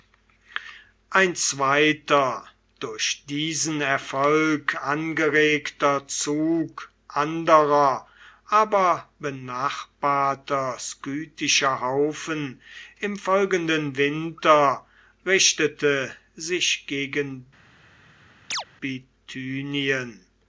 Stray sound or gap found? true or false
true